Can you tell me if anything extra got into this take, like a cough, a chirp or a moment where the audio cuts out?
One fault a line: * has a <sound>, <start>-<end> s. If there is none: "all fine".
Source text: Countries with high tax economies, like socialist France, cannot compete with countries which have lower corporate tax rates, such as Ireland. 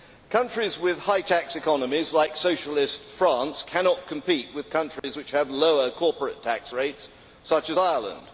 * has a dropout, 5.0-5.0 s